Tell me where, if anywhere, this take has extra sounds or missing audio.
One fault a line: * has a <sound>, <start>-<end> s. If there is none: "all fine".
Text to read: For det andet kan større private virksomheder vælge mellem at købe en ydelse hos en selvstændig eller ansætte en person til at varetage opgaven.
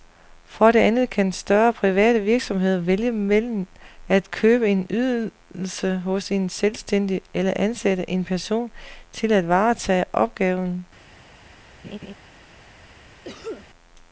* has a laugh, 11.8-12.1 s
* has a cough, 13.2-13.7 s